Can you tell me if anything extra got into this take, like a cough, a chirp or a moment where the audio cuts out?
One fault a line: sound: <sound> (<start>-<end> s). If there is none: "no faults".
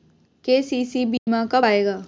sound: dropout (1.2-1.3 s)